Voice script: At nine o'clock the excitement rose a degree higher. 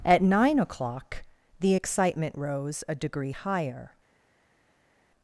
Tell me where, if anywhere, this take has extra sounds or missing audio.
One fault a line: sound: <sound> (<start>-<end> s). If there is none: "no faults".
no faults